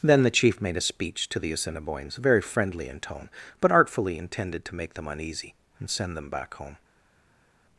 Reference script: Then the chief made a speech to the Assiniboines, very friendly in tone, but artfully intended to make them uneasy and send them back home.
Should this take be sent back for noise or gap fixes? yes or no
no